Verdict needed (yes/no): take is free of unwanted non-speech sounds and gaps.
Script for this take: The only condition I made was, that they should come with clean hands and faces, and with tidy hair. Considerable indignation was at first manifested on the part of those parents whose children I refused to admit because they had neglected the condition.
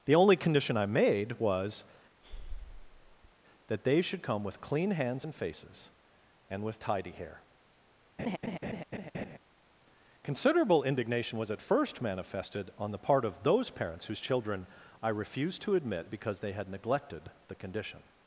no